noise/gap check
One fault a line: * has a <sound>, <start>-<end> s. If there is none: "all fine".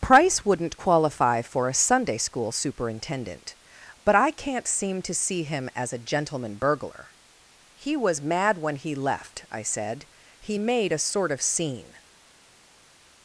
all fine